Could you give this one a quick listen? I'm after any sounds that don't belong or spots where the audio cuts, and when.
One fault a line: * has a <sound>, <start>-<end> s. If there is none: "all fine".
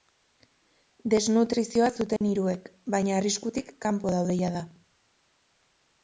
* has a dropout, 2.2-2.2 s